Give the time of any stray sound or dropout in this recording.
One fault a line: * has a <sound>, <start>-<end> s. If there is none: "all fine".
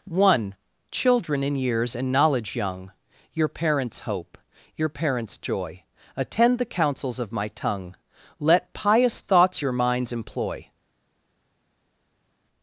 all fine